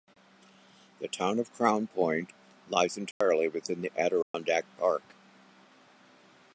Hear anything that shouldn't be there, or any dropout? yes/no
yes